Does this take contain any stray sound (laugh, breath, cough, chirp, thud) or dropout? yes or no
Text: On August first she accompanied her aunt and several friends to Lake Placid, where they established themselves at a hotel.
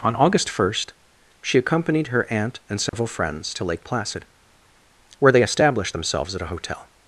yes